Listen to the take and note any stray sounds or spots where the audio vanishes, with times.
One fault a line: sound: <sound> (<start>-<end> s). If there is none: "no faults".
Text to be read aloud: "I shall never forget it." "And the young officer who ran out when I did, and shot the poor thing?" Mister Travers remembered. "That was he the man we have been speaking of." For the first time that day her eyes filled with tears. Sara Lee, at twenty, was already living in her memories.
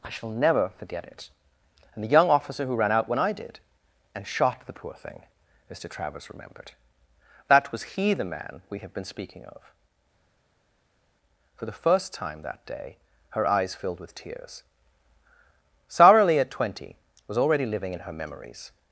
no faults